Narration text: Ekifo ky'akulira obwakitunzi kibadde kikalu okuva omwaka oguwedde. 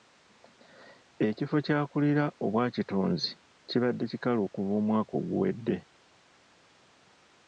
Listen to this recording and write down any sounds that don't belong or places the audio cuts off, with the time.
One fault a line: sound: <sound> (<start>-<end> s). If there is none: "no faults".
no faults